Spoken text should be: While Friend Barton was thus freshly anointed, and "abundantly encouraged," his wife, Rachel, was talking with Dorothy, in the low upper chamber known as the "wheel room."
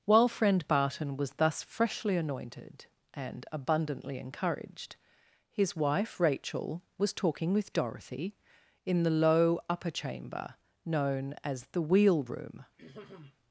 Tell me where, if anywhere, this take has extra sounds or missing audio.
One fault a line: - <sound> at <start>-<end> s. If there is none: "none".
- throat clearing at 12.8-13.4 s